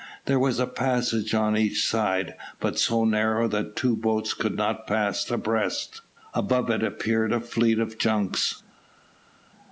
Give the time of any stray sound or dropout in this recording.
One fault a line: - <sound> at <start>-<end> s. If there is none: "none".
none